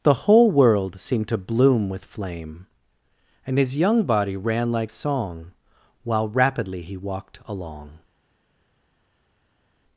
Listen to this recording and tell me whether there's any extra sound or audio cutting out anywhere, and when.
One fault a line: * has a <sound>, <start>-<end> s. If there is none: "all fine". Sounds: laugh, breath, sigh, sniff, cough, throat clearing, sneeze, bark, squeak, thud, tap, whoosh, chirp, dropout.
all fine